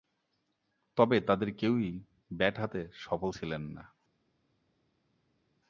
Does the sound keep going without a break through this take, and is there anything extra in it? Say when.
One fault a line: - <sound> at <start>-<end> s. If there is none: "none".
none